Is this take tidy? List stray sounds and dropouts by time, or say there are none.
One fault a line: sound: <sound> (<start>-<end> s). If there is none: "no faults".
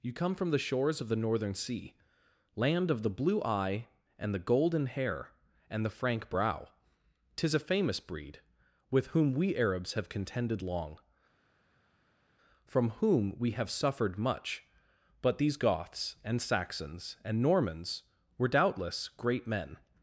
no faults